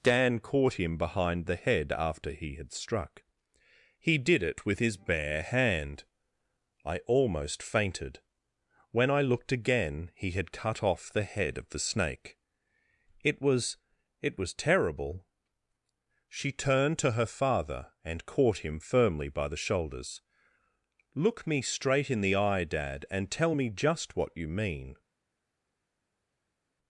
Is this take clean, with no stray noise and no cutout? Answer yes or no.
yes